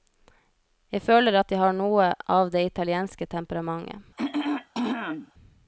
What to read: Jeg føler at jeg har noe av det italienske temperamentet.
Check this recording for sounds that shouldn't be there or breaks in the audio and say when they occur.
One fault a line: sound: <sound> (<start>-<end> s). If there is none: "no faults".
sound: throat clearing (4.2-5.3 s)